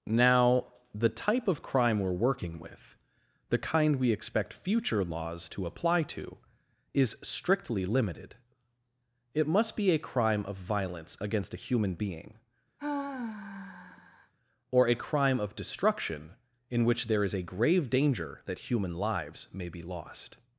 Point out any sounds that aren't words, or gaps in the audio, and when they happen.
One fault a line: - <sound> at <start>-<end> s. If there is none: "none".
- sigh at 12.8-14.3 s